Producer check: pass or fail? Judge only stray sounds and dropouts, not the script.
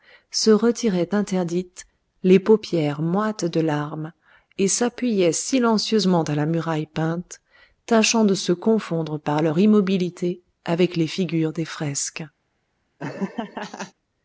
fail